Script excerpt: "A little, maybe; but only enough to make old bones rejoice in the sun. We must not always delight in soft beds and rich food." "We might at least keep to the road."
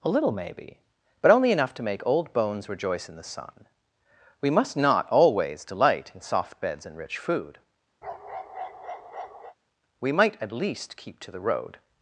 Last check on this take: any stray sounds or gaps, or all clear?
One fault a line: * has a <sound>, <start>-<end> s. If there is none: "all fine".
* has a bark, 8.0-9.6 s